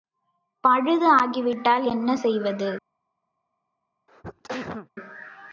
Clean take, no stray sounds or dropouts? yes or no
no